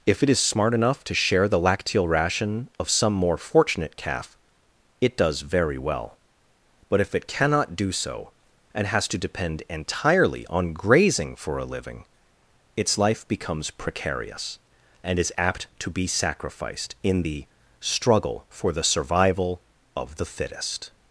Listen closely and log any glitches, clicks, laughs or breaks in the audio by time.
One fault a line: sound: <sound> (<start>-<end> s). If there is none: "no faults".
no faults